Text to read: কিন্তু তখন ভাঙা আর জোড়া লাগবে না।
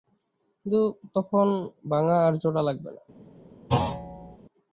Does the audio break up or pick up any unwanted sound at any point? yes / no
yes